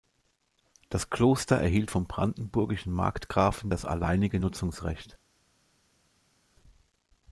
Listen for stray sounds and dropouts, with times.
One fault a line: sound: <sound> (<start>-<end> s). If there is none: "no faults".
no faults